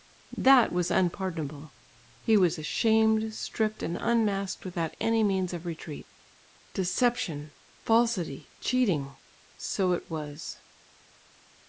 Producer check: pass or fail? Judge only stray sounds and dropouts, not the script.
pass